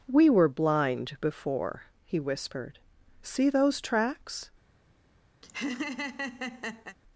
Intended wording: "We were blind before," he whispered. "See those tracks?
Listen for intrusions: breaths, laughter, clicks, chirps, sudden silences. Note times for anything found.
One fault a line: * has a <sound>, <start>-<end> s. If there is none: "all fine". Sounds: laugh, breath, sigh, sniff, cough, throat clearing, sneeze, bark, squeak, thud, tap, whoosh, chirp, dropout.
* has a laugh, 5.4-7.0 s